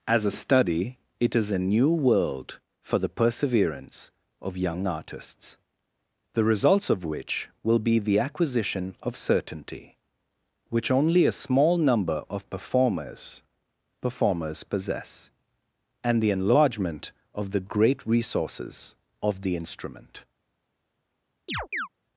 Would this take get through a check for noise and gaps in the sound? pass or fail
fail